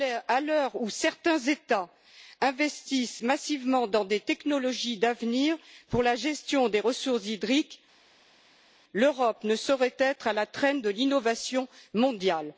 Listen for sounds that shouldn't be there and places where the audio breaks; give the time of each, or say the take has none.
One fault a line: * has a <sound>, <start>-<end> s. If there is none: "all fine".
all fine